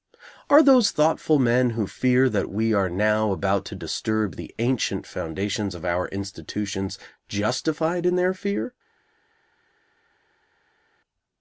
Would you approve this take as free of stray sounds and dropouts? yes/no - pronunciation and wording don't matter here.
yes